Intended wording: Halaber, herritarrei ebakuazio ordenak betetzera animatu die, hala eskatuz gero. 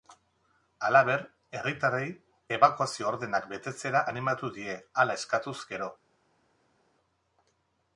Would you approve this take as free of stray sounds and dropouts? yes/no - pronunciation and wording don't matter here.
yes